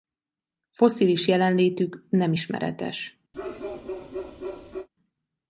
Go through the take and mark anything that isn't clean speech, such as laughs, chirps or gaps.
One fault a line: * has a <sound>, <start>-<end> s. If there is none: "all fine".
* has a bark, 3.3-4.9 s